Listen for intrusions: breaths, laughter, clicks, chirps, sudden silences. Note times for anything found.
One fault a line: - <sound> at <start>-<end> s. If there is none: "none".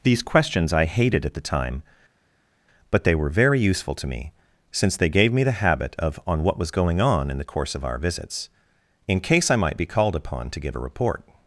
none